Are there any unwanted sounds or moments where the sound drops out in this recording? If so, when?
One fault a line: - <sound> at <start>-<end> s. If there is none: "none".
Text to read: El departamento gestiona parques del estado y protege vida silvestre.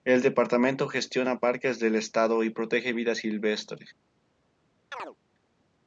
- chirp at 4.9-5.2 s